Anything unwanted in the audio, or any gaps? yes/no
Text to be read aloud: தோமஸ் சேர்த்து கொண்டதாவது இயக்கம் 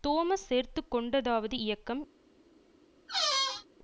yes